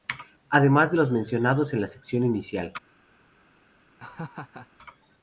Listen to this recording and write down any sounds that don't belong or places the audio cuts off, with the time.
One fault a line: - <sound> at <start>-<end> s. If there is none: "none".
- laugh at 4.0-4.7 s